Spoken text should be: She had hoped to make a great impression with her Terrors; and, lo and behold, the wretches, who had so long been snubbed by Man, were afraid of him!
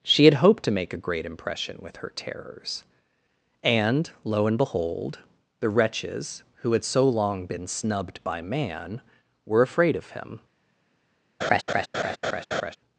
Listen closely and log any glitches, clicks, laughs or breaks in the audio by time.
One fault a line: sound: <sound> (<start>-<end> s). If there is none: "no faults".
sound: laugh (11.4-12.8 s)